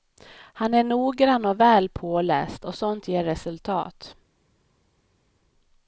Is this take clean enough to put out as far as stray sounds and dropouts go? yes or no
yes